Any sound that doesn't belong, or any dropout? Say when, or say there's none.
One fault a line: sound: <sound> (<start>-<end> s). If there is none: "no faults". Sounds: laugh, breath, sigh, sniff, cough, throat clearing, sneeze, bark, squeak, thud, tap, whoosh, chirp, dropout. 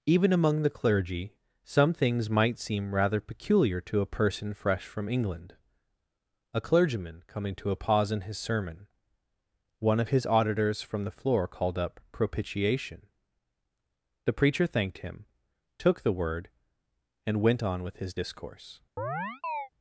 sound: chirp (19.0-19.7 s)